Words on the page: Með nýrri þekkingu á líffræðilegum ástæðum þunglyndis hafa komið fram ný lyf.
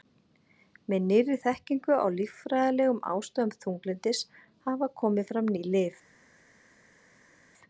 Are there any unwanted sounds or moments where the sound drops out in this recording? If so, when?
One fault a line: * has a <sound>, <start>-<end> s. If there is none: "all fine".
all fine